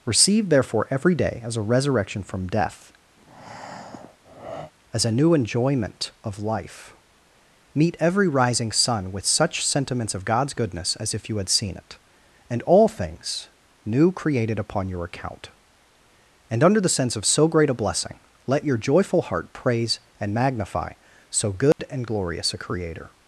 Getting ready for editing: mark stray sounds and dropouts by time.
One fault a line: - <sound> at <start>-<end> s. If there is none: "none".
- breath at 3.2-4.7 s
- dropout at 21.7-21.8 s